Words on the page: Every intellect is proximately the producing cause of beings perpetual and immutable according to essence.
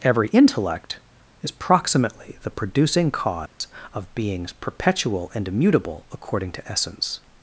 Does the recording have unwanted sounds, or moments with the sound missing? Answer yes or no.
yes